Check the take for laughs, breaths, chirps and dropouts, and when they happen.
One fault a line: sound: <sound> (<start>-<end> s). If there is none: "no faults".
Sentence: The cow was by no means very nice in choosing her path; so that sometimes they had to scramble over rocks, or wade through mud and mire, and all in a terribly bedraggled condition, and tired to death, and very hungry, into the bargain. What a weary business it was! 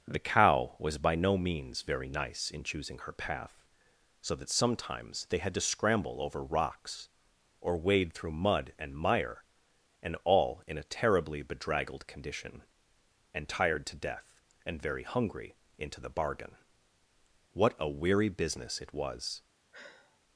sound: sigh (19.7-20.2 s)